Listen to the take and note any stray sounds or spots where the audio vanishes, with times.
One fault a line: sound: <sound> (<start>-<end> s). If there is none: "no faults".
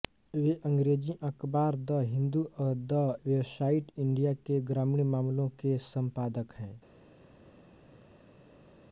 no faults